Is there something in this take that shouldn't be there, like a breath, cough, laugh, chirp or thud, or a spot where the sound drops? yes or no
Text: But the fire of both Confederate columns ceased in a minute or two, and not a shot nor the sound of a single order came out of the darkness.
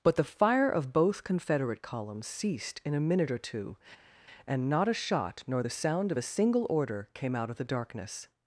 no